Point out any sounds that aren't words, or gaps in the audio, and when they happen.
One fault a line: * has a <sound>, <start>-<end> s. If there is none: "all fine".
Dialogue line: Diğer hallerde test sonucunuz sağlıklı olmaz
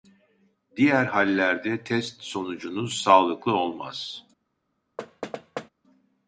* has a thud, 5.0-5.7 s